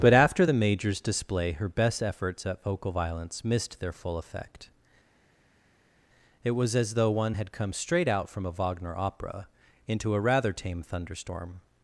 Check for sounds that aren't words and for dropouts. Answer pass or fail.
pass